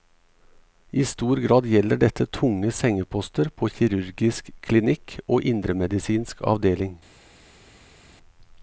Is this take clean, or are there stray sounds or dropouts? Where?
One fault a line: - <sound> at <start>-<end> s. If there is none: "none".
none